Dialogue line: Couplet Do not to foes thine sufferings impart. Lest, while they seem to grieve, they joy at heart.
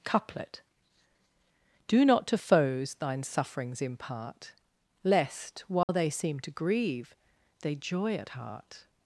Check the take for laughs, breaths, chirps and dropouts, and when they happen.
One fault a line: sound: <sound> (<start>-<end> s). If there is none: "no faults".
sound: dropout (5.8-5.9 s)